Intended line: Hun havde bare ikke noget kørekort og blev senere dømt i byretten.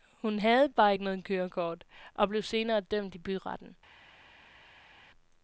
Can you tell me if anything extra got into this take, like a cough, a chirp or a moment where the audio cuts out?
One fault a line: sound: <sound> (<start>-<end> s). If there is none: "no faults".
no faults